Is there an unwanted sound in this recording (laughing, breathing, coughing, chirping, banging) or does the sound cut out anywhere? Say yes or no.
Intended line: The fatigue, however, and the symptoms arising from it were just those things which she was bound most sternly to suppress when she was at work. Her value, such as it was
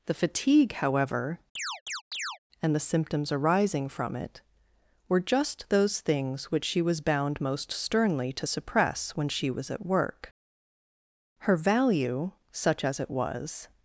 yes